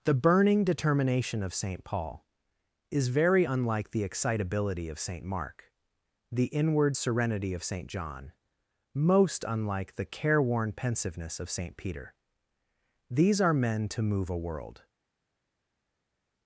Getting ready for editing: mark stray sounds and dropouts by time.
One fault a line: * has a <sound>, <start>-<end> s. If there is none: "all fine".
all fine